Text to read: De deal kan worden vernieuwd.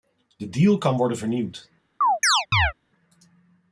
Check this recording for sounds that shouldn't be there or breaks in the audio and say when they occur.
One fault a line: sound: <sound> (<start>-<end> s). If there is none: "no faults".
sound: chirp (2.0-2.7 s)